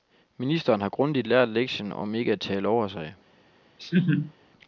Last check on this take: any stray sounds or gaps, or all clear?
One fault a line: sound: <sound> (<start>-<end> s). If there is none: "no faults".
sound: laugh (3.8-4.3 s)